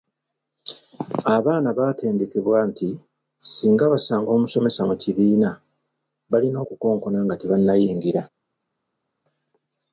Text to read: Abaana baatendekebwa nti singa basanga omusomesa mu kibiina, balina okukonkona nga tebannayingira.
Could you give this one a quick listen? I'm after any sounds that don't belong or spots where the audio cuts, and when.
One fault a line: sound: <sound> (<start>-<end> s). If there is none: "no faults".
no faults